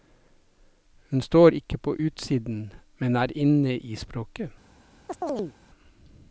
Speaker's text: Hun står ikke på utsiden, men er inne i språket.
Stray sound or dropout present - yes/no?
yes